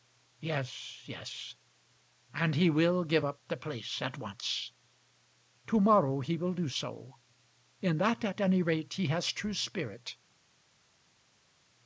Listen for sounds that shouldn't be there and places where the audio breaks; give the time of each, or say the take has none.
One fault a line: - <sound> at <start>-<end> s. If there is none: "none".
none